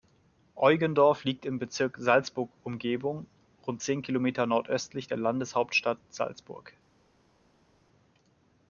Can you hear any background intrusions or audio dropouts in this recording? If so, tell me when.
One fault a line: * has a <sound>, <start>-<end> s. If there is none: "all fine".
all fine